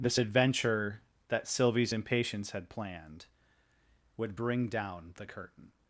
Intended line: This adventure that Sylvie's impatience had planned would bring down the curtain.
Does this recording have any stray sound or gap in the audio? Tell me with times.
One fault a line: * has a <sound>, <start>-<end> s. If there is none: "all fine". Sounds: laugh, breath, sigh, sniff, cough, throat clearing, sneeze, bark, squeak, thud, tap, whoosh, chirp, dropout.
all fine